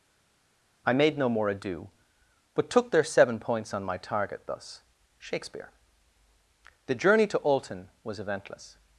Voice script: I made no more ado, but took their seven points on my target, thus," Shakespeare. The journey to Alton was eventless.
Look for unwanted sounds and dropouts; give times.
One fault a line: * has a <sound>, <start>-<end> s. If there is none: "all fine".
all fine